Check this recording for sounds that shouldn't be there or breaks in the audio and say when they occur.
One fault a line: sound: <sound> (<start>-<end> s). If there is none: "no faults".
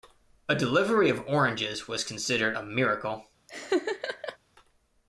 sound: laugh (3.5-4.4 s)